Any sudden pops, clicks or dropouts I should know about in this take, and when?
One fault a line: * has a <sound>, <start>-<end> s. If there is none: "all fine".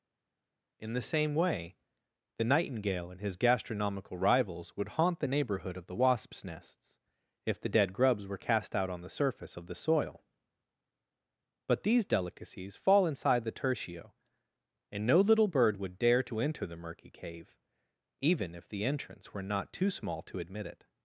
all fine